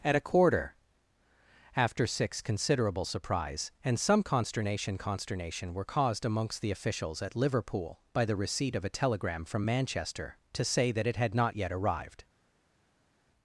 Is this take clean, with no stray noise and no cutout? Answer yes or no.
yes